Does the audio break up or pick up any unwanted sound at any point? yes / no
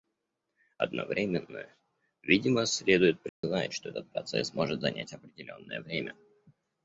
yes